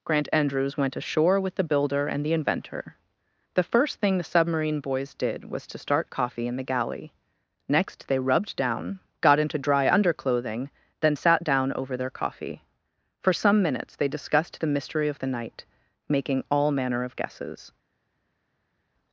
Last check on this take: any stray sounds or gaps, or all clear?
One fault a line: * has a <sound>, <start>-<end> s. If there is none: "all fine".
all fine